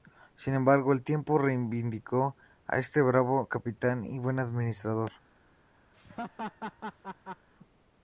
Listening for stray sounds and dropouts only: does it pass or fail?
fail